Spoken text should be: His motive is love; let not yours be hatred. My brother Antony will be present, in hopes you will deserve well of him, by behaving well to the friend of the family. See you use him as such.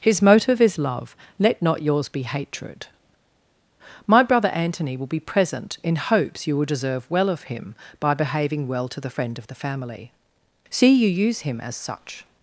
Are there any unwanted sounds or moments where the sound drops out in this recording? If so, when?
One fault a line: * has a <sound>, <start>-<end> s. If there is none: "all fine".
all fine